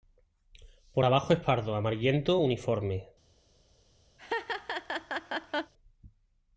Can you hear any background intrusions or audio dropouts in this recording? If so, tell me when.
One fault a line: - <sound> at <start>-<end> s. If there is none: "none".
- laugh at 4.2-5.7 s